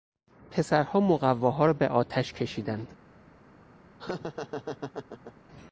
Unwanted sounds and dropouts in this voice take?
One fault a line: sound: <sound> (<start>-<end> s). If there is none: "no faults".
sound: laugh (4.0-5.3 s)